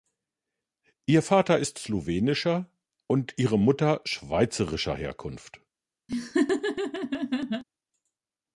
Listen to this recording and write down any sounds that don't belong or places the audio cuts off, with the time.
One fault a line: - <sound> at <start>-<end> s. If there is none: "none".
- laugh at 6.1-7.6 s